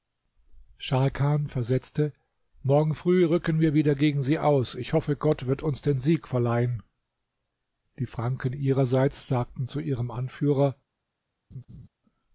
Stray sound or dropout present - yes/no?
yes